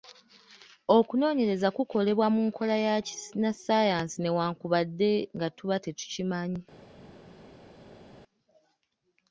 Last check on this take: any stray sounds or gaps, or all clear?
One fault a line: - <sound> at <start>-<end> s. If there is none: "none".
none